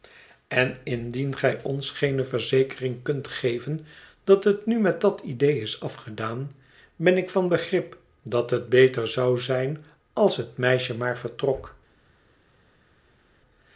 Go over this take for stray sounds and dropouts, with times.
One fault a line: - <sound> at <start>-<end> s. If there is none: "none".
none